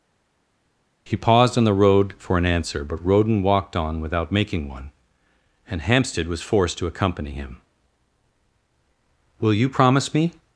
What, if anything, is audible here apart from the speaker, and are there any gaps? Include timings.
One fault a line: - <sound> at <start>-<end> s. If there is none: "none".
none